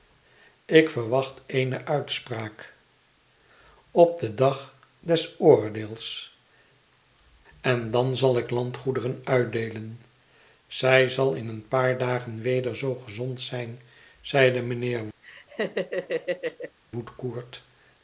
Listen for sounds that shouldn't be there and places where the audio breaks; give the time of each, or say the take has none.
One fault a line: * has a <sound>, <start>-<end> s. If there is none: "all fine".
* has a laugh, 15.2-16.8 s